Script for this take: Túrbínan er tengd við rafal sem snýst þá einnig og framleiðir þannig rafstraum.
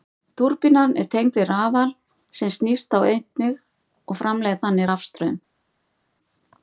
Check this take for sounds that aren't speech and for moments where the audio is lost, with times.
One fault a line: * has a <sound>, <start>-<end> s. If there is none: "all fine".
all fine